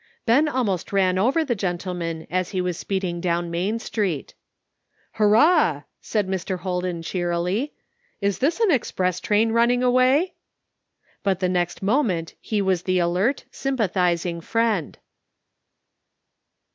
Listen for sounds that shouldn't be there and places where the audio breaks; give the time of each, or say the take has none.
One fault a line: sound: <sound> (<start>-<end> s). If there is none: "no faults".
no faults